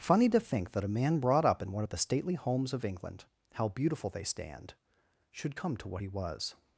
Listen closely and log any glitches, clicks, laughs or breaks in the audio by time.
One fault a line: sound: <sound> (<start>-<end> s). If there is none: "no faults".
no faults